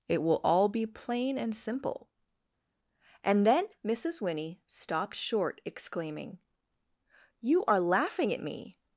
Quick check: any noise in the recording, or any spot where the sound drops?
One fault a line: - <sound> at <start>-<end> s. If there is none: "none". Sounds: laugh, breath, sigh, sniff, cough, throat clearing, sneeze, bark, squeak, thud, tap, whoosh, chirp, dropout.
none